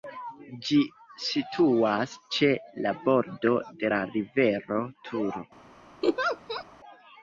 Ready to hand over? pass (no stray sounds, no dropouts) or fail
fail